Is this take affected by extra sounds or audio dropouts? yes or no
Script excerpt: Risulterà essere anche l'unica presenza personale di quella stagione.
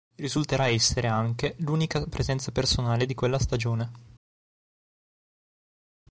no